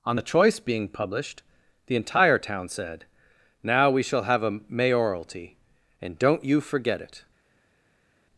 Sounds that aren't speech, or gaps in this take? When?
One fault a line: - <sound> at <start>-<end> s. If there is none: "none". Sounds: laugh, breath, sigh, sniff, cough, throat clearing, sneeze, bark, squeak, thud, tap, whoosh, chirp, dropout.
none